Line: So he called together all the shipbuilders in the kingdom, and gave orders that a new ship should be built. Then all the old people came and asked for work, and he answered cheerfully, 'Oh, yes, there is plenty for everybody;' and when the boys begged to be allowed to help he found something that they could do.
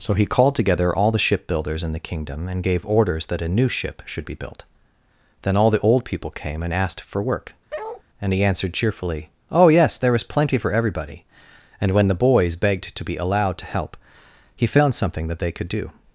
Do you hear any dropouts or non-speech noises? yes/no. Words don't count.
yes